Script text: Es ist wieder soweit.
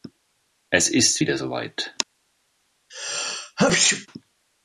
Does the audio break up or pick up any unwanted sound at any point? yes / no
yes